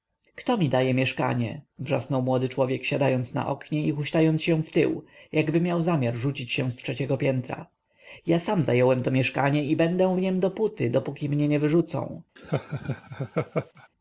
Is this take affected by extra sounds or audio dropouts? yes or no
yes